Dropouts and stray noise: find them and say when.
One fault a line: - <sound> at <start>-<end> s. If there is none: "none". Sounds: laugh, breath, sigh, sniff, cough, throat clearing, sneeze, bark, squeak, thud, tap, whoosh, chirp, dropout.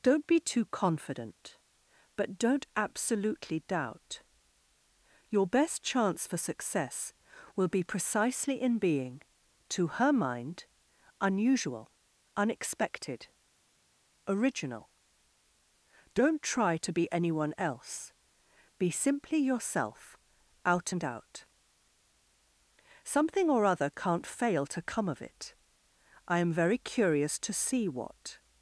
none